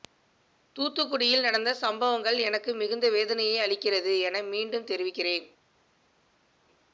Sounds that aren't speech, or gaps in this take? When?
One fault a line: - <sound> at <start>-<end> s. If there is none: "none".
none